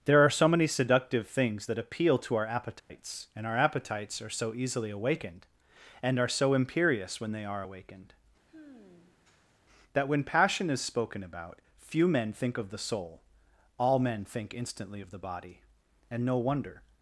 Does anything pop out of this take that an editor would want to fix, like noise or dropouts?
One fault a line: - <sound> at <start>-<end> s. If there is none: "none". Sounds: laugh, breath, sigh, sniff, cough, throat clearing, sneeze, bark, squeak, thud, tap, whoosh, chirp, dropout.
- dropout at 2.8-2.9 s
- sigh at 8.5-9.6 s